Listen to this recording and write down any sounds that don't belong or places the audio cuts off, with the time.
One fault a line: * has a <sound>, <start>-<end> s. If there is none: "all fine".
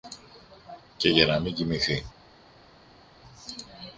all fine